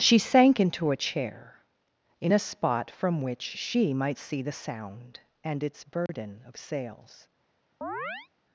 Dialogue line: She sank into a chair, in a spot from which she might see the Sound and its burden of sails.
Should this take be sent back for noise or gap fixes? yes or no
yes